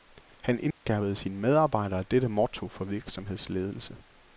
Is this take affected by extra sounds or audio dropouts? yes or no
yes